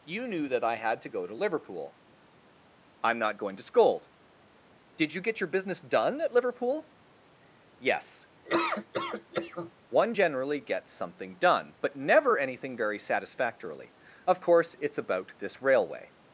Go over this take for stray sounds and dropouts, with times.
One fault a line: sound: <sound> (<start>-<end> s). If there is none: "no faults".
sound: laugh (8.4-9.7 s)